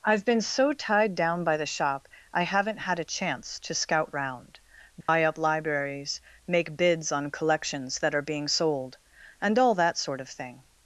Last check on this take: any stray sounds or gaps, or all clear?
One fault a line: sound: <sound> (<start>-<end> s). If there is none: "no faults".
sound: dropout (5.0-5.1 s)